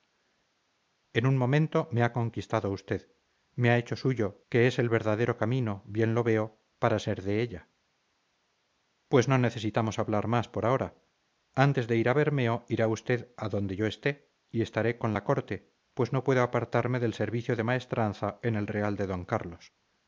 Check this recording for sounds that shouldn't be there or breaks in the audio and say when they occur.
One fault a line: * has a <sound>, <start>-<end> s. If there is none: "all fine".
all fine